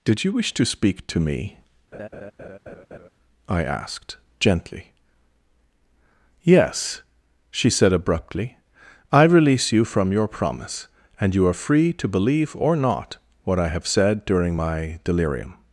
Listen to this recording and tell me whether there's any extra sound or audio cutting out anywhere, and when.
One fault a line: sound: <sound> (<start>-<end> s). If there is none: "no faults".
sound: laugh (1.9-3.1 s)